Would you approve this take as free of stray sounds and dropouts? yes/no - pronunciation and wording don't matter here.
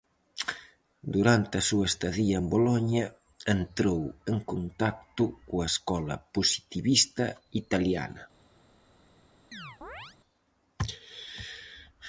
no